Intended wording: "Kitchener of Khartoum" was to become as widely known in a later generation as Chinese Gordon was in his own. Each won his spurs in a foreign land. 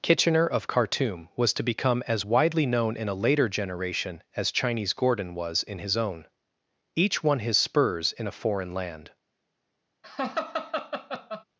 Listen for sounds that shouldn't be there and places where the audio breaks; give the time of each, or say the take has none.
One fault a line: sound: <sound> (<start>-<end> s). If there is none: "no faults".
sound: laugh (10.0-11.4 s)